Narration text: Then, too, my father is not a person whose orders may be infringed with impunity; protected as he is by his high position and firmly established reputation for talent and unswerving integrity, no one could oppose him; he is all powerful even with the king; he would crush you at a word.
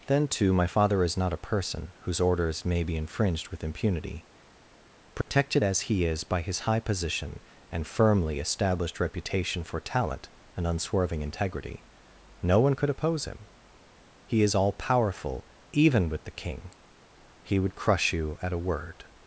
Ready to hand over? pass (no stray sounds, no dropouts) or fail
fail